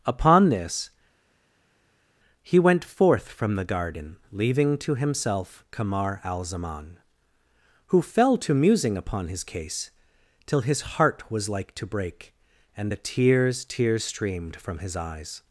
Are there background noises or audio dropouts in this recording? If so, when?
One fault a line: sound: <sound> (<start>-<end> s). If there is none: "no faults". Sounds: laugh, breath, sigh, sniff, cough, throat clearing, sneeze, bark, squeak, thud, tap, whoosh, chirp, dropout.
no faults